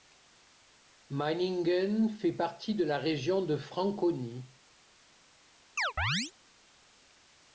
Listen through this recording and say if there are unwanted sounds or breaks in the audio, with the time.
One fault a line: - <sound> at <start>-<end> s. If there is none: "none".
- chirp at 5.8-6.3 s